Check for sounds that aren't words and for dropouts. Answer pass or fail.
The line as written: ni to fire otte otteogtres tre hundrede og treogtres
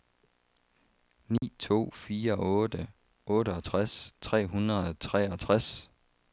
fail